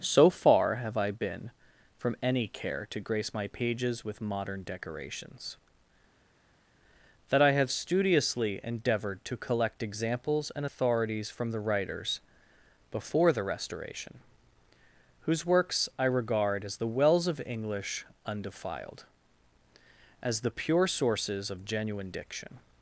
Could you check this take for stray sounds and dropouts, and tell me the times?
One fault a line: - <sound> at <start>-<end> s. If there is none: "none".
none